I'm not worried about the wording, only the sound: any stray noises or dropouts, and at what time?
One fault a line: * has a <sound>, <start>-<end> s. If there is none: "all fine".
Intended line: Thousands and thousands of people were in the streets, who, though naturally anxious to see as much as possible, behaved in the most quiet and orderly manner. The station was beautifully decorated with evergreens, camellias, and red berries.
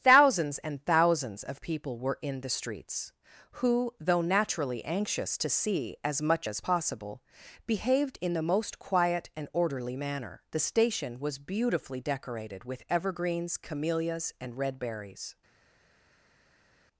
all fine